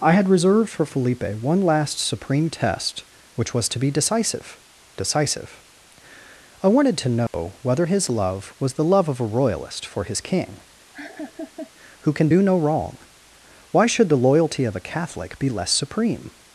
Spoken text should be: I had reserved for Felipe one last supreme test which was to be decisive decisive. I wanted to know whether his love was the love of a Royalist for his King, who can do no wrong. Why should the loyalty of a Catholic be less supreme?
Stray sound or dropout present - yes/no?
yes